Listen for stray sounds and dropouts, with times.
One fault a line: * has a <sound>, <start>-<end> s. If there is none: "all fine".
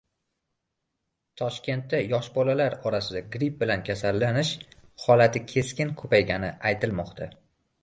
all fine